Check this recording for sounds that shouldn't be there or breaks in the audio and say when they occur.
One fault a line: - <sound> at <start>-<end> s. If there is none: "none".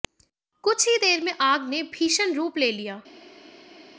none